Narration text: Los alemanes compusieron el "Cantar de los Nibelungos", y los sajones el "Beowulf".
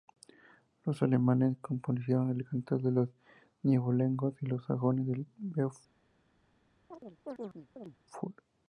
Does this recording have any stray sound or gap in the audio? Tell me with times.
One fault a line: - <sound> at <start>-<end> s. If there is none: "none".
- chirp at 6.9-8.0 s